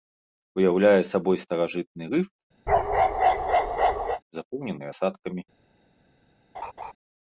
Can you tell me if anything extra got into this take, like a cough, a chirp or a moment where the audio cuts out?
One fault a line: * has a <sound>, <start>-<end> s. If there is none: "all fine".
* has a bark, 2.7-4.2 s
* has a laugh, 6.5-6.9 s